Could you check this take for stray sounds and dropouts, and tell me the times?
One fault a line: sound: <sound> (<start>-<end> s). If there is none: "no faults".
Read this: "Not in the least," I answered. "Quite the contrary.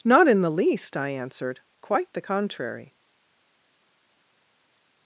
no faults